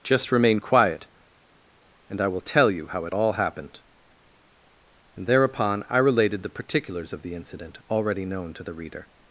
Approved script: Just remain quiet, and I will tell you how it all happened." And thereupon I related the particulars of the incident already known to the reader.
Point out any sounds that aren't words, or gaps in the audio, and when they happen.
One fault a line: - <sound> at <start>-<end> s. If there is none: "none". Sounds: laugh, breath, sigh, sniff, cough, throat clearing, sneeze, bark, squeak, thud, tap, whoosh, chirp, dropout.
none